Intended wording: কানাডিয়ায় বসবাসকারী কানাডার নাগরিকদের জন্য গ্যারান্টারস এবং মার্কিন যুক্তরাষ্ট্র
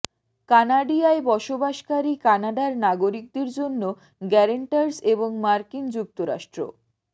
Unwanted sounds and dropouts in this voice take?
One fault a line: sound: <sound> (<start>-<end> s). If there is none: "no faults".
no faults